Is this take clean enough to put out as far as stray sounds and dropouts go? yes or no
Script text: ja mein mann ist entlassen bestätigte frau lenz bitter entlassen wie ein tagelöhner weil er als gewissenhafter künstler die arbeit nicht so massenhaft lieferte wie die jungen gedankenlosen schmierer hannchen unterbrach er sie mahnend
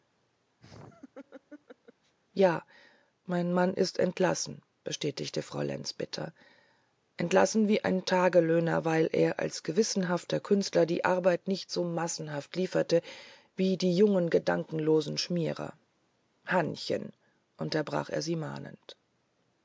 no